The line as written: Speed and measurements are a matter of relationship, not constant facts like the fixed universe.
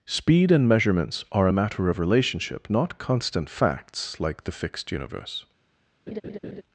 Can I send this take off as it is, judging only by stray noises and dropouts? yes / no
no